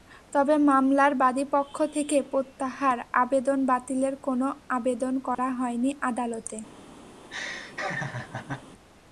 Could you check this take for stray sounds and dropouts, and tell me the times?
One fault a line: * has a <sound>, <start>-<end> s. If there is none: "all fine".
* has a dropout, 5.3-5.4 s
* has a laugh, 7.2-8.6 s